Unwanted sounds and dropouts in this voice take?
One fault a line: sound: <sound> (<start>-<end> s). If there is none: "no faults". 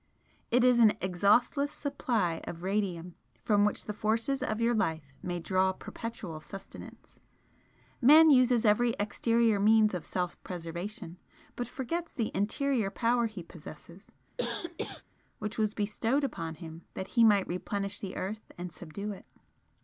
sound: cough (14.4-15.0 s)